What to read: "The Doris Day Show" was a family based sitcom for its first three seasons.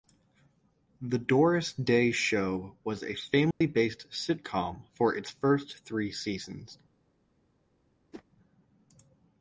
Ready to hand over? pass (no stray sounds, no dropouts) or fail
fail